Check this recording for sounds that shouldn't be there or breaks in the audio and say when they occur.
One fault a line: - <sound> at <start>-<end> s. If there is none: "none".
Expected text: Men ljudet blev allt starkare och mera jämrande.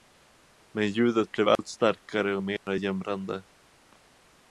- dropout at 1.6-1.6 s
- dropout at 2.6-2.7 s